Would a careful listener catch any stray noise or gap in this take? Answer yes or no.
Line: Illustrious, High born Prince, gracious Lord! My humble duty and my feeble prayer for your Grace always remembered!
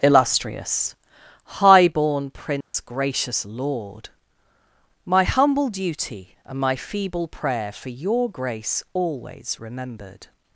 yes